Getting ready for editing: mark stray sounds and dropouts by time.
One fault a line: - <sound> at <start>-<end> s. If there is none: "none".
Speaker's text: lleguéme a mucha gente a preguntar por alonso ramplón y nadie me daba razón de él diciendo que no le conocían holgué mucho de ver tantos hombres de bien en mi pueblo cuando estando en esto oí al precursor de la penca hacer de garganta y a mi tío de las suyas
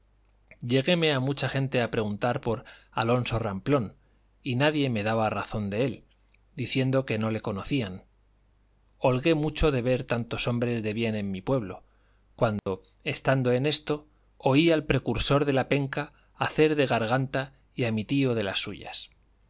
- dropout at 12.6-12.7 s